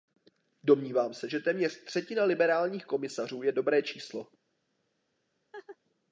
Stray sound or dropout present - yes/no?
yes